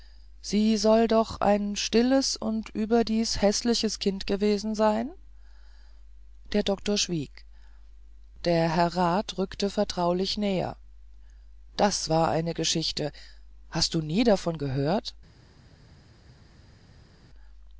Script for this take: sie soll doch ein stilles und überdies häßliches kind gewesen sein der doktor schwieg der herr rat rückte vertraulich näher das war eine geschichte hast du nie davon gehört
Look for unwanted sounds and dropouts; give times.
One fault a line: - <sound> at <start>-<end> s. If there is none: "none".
none